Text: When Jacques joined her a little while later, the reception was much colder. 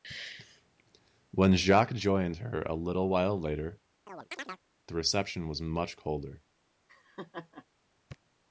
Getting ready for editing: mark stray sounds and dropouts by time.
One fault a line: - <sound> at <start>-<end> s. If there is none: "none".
- chirp at 4.1-4.6 s
- laugh at 6.9-7.7 s